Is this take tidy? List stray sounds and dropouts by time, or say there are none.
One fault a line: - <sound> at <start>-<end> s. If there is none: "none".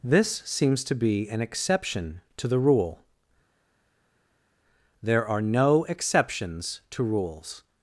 none